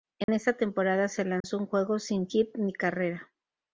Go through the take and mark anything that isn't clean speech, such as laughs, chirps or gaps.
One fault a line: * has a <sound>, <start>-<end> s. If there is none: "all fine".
* has a dropout, 0.2-0.3 s
* has a dropout, 1.4-1.4 s